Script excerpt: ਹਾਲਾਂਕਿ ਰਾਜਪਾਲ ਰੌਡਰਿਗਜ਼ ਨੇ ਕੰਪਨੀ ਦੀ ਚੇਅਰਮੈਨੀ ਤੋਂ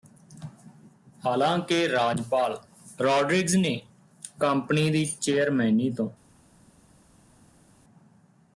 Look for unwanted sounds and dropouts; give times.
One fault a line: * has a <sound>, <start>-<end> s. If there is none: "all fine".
all fine